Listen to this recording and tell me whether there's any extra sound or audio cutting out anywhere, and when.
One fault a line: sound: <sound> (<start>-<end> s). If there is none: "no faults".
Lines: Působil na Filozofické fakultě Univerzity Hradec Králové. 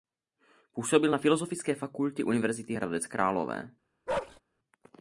sound: bark (4.1-4.4 s)